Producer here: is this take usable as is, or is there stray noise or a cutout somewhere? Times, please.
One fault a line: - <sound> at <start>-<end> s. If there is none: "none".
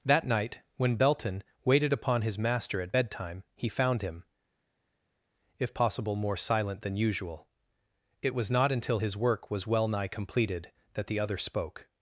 none